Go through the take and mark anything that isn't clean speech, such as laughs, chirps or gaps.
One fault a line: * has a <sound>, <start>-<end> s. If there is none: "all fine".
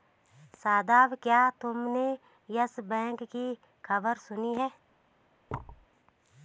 * has a thud, 5.5-5.9 s